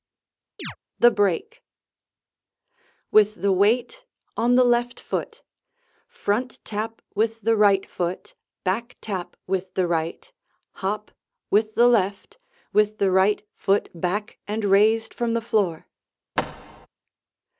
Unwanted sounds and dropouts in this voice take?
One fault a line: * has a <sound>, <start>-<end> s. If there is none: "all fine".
* has a chirp, 0.6-0.8 s
* has a thud, 16.4-16.9 s